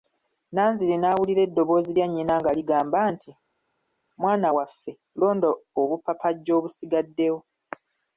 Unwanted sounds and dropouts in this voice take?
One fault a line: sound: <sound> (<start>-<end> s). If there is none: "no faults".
no faults